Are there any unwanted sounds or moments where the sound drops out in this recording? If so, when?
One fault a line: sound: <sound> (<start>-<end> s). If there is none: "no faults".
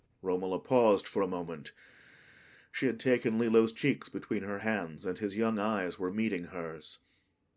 no faults